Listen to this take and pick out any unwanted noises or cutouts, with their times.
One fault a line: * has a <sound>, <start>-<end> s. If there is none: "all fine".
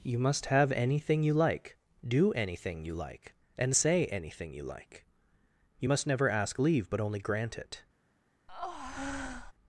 * has a breath, 8.5-9.5 s